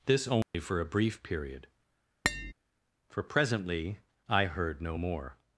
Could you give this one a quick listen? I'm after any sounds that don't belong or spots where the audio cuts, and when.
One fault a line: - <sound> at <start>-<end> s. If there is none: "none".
- dropout at 0.4-0.5 s
- tap at 2.2-2.5 s